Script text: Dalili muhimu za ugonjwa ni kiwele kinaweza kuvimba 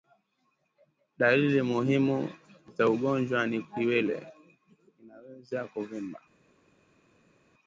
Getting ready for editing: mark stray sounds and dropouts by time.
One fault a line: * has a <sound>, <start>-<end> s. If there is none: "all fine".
all fine